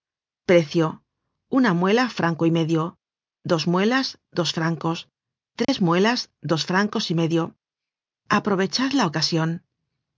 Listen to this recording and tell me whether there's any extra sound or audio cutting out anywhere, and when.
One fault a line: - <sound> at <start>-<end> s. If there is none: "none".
- dropout at 5.6-5.7 s